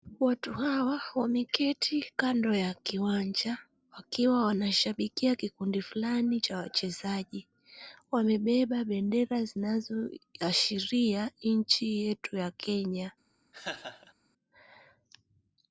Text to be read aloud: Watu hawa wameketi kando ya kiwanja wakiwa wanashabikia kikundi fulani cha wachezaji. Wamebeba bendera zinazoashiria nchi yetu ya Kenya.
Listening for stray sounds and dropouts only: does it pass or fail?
fail